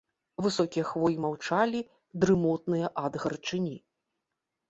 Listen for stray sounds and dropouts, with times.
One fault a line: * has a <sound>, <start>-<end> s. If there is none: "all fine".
all fine